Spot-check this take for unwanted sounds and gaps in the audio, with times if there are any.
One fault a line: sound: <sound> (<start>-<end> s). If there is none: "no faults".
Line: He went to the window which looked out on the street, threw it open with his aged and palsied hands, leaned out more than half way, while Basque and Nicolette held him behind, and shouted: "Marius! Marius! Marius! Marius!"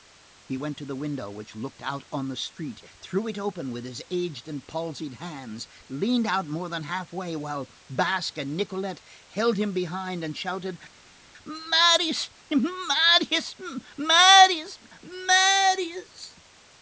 no faults